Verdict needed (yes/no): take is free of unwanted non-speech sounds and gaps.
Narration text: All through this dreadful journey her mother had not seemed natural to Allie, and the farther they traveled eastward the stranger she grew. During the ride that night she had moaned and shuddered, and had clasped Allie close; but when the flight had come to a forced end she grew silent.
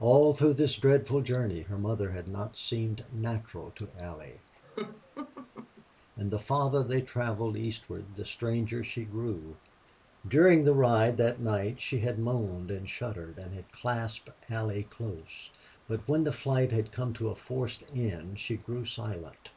no